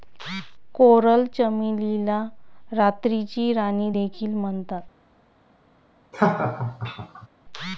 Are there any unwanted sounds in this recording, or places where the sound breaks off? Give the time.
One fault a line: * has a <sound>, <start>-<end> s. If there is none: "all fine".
* has a laugh, 6.1-7.3 s